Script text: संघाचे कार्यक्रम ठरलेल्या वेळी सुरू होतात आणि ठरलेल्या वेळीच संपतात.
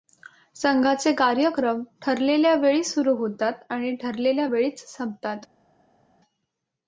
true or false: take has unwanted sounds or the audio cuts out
false